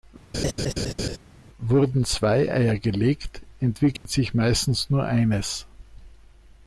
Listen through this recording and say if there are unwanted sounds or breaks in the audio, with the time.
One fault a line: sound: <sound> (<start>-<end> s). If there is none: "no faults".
sound: laugh (0.3-1.2 s)
sound: dropout (4.0-4.1 s)